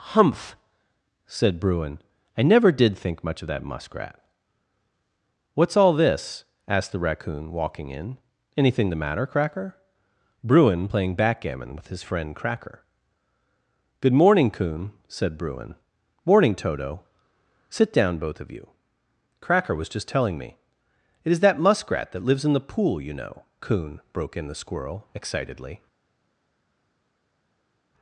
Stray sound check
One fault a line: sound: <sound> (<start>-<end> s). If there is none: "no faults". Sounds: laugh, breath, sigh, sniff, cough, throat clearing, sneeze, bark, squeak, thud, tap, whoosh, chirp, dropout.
no faults